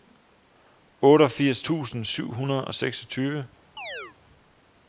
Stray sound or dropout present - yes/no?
yes